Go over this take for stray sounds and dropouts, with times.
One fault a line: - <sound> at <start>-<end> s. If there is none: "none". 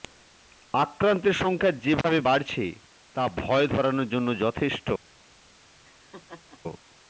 - laugh at 5.8-6.6 s